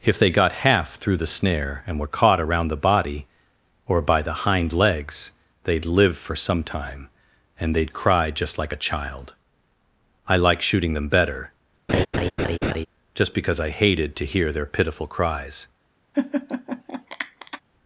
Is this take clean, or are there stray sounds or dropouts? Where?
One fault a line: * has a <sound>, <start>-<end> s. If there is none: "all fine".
* has a laugh, 11.9-12.9 s
* has a laugh, 16.1-17.6 s